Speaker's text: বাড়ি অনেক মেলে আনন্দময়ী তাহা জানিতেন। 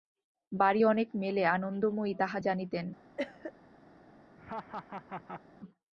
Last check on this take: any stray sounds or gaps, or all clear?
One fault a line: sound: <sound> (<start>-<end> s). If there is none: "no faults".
sound: cough (3.2-3.5 s)
sound: laugh (4.4-5.4 s)